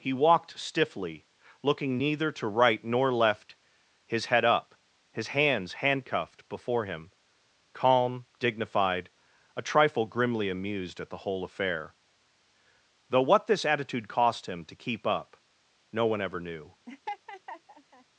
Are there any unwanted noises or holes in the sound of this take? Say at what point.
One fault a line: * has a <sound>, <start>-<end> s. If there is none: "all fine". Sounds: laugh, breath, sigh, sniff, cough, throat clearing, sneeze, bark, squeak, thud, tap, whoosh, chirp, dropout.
* has a laugh, 16.9-18.0 s